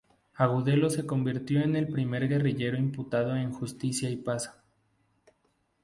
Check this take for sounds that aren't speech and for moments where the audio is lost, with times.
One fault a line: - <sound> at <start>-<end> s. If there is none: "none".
none